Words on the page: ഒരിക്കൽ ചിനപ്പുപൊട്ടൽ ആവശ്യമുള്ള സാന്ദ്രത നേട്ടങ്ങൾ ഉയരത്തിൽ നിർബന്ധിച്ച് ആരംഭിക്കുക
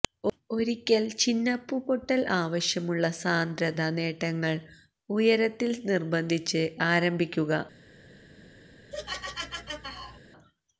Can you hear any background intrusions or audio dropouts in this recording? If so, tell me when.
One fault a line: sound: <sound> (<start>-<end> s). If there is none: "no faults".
sound: laugh (8.9-10.2 s)